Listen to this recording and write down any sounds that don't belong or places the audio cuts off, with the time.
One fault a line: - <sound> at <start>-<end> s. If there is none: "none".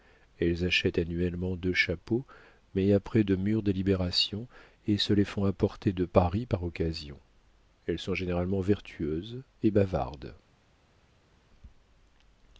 none